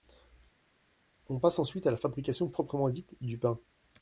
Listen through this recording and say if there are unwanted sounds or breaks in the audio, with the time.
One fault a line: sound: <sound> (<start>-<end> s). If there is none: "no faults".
no faults